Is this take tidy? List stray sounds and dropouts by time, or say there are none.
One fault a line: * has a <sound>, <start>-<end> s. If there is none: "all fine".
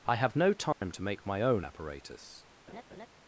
* has a dropout, 0.7-0.8 s
* has a laugh, 2.7-3.1 s